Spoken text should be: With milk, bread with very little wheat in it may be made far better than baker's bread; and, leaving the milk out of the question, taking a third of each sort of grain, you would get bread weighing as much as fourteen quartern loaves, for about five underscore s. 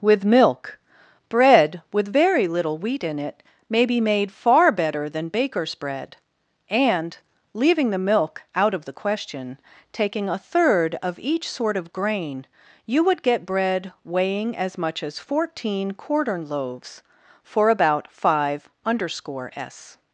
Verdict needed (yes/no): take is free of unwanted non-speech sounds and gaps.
yes